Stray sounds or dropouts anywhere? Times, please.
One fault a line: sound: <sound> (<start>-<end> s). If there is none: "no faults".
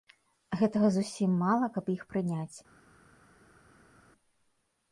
no faults